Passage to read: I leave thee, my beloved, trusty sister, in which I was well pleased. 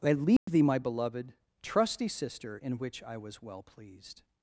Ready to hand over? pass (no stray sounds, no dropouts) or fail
fail